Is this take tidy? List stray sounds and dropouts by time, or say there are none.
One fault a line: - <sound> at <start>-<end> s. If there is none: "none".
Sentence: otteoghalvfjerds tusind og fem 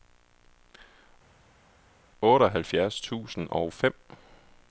none